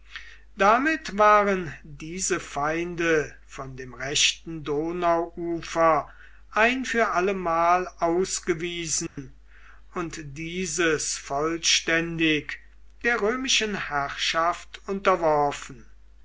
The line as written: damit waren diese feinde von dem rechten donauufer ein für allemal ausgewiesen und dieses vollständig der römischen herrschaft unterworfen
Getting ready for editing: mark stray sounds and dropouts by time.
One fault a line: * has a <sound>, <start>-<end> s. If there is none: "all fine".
* has a dropout, 9.1-9.2 s